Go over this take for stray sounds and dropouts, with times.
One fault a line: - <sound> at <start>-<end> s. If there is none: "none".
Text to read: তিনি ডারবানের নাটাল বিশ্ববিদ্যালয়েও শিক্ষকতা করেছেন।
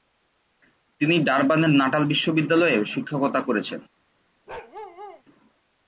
- bark at 4.5-5.2 s